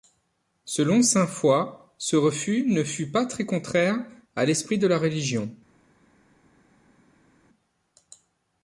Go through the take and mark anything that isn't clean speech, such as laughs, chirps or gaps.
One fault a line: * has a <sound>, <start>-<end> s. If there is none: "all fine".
all fine